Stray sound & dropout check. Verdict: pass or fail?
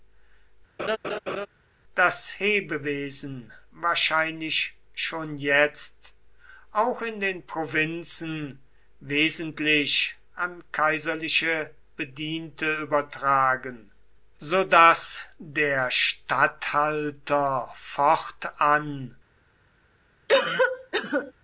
fail